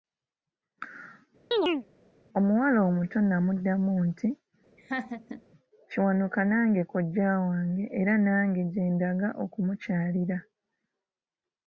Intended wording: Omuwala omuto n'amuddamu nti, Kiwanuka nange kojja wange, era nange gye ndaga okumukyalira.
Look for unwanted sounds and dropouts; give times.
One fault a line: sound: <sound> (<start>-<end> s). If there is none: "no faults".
sound: chirp (1.5-1.9 s)
sound: laugh (4.8-5.4 s)